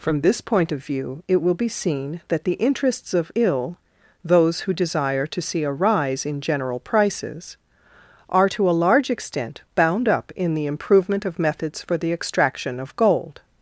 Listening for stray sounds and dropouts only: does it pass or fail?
pass